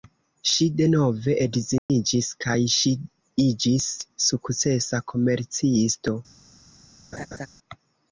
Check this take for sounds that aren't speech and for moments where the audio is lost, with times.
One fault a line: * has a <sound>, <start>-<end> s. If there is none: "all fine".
* has a dropout, 1.8-1.9 s
* has a laugh, 7.1-7.5 s